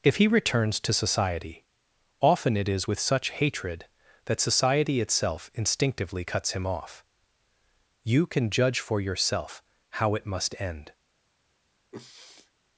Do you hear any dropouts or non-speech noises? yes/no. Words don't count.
yes